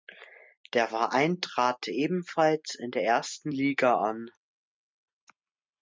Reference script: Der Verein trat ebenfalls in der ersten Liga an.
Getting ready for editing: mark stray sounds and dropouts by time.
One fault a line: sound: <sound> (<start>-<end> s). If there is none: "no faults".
no faults